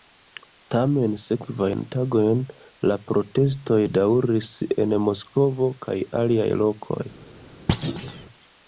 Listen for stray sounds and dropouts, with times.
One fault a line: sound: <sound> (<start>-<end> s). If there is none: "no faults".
sound: thud (7.7-8.3 s)